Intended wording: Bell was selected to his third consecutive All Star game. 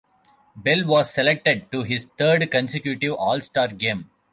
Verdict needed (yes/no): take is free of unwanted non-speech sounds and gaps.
yes